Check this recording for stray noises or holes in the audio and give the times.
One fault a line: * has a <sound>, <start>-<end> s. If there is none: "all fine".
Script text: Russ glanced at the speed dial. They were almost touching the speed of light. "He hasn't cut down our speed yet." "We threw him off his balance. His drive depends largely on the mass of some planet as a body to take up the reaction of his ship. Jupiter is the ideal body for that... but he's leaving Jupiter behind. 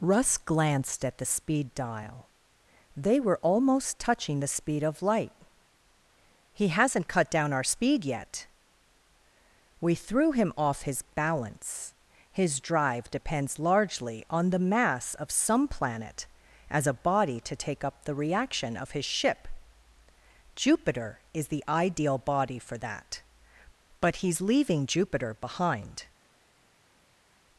all fine